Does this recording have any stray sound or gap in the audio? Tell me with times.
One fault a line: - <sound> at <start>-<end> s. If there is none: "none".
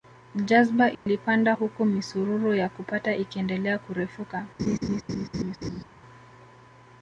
- dropout at 0.9-1.1 s
- laugh at 4.6-5.8 s